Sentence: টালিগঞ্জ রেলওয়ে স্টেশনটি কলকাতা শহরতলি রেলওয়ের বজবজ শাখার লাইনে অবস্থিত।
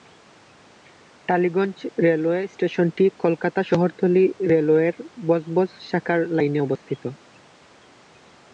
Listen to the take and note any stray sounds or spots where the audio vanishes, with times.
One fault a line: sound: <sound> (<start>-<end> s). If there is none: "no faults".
no faults